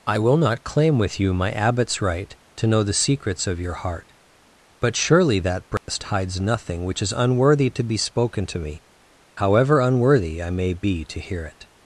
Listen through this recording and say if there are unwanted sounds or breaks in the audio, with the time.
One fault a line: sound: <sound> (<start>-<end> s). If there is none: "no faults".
sound: dropout (5.8-5.9 s)